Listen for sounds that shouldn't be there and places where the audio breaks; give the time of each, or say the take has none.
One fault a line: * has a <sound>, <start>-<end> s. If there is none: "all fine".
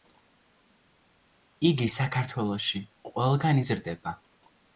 all fine